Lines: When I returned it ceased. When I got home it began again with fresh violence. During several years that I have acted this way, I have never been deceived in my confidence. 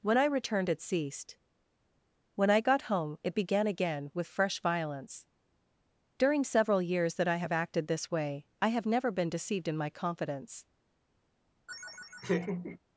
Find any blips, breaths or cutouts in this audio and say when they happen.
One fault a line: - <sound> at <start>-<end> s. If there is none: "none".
- laugh at 11.7-12.8 s